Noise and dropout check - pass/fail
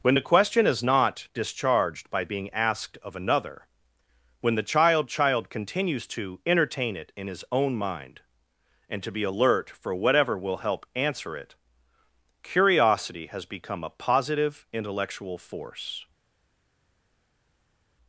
pass